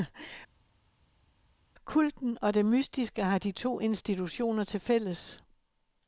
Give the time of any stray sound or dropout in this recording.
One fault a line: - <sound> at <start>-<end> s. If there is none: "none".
none